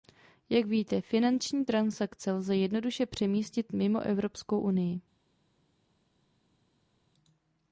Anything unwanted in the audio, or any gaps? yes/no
no